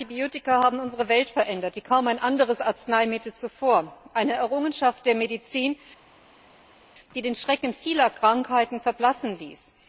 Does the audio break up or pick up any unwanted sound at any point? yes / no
no